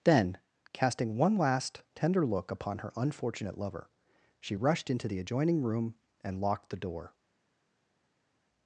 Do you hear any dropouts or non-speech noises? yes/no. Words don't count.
no